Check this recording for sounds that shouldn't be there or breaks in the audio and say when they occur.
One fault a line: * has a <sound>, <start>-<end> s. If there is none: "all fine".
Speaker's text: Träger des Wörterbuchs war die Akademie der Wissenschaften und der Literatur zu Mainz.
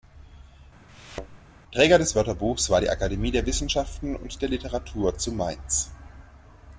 * has a thud, 0.9-1.4 s